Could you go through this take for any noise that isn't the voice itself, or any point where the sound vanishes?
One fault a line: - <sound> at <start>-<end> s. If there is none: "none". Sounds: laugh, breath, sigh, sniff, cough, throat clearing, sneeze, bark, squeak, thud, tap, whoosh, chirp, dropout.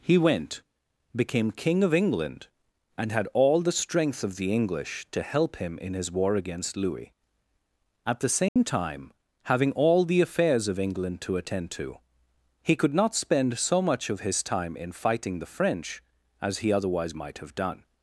- dropout at 8.5-8.6 s